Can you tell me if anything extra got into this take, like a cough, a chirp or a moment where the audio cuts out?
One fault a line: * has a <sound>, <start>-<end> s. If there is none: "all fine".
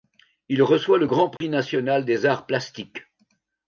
* has a dropout, 1.4-1.4 s